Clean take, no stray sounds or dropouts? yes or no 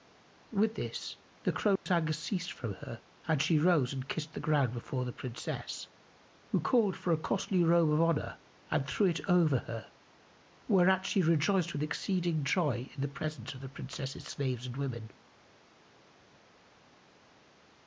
no